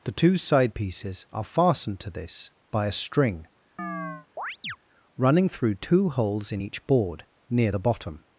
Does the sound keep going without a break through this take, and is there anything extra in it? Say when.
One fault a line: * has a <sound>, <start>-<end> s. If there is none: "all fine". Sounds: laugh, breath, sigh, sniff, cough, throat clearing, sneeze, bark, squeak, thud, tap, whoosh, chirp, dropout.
* has a chirp, 3.8-4.8 s